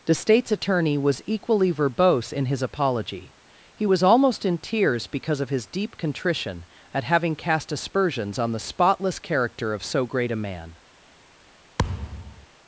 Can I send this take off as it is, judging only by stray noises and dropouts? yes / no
no